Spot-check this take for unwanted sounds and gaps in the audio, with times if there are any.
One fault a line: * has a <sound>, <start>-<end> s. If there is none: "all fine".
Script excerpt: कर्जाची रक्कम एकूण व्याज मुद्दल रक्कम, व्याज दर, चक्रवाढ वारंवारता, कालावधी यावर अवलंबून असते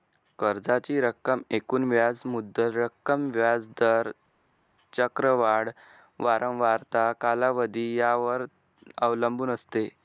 all fine